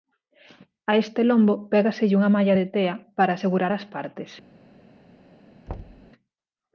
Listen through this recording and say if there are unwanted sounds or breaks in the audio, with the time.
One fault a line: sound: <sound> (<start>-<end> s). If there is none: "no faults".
sound: thud (5.7-6.1 s)